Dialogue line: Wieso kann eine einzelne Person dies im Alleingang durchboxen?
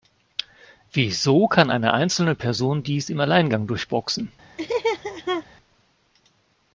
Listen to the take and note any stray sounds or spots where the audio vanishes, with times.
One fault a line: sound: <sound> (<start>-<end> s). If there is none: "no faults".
sound: laugh (4.6-5.5 s)